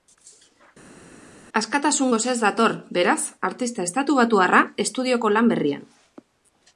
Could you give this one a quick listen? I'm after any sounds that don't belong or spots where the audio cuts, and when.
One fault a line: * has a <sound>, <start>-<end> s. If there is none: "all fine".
all fine